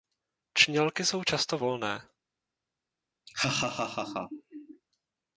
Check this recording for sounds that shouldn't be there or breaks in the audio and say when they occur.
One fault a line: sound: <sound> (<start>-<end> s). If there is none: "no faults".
sound: laugh (3.3-4.8 s)